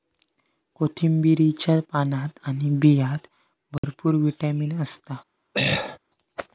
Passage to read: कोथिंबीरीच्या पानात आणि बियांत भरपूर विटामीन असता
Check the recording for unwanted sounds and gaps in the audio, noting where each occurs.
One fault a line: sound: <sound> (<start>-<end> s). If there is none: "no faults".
sound: dropout (3.8-3.8 s)
sound: throat clearing (5.5-6.0 s)